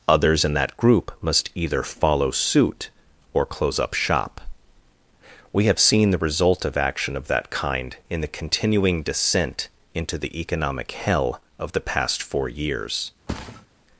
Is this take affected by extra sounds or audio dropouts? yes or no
yes